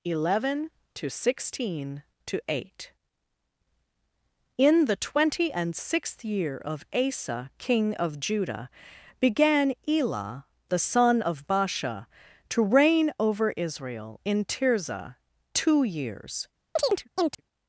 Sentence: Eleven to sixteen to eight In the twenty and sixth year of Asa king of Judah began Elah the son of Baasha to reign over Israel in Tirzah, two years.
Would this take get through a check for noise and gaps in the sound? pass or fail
fail